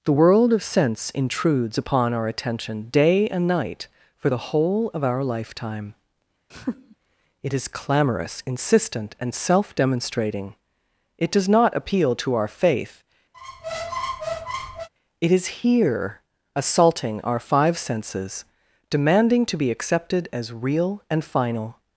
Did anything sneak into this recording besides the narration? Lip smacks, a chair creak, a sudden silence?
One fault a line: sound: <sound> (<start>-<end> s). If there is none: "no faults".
sound: laugh (6.5-7.0 s)
sound: squeak (13.3-14.9 s)